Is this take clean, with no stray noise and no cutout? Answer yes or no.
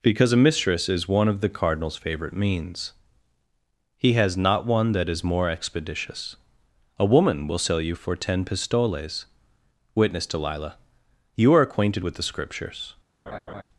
no